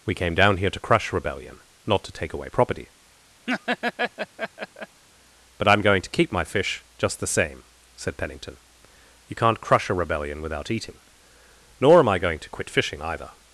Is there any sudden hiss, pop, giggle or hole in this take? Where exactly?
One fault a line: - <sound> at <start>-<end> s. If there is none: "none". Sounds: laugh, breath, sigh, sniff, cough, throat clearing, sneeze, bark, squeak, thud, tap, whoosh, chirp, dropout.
- laugh at 3.5-5.0 s